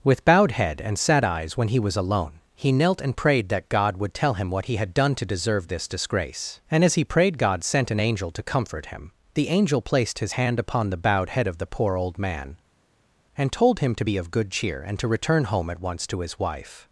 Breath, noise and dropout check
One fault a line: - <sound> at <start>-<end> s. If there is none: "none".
none